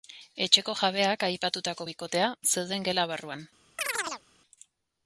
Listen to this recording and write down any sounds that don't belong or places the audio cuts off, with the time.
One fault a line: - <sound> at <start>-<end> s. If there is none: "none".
- chirp at 3.8-4.2 s